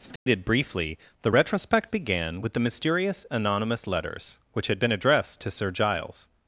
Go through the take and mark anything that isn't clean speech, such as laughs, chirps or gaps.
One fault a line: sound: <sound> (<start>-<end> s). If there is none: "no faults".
sound: dropout (0.2-0.3 s)